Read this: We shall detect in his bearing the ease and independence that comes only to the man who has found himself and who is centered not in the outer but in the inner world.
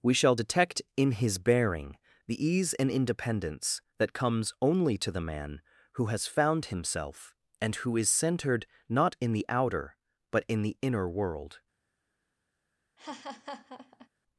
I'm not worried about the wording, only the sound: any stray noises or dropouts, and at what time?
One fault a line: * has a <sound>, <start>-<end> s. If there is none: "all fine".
* has a laugh, 13.0-14.1 s